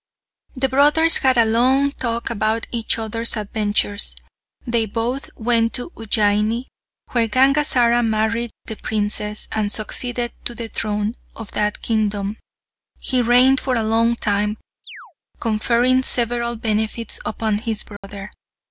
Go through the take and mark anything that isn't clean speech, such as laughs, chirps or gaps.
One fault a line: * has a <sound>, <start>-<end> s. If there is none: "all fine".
* has a chirp, 14.8-15.1 s
* has a dropout, 18.0-18.0 s